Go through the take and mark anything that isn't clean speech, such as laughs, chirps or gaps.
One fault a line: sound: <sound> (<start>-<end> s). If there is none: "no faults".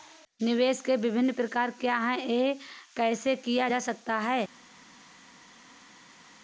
no faults